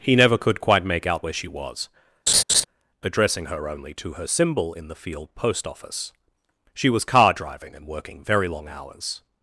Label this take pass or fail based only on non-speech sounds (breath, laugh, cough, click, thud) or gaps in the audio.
fail